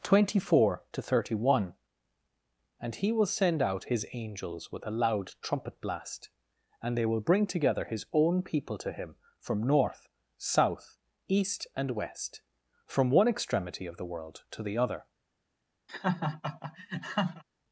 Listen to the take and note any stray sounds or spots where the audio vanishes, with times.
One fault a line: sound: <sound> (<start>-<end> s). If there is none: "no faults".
sound: laugh (15.9-17.4 s)